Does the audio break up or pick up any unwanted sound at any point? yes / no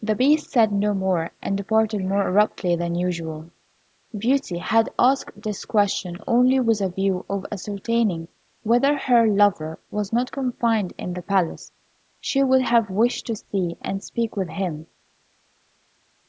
no